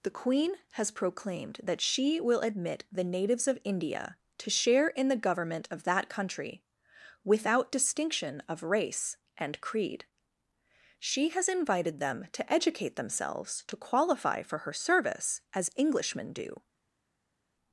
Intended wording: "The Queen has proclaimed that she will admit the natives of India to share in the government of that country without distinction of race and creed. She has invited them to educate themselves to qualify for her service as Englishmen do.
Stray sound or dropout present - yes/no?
no